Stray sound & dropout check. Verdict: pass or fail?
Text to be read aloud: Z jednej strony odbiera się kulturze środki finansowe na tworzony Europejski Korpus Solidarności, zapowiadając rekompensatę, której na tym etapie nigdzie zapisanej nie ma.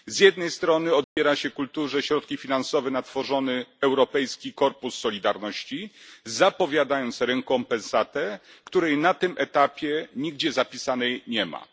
fail